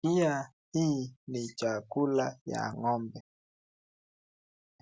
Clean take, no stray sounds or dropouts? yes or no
yes